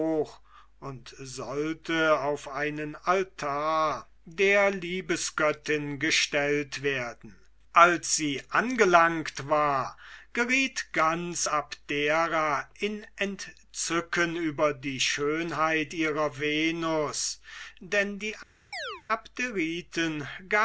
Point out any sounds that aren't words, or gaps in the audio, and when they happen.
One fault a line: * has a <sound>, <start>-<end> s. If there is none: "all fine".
* has a chirp, 18.7-19.0 s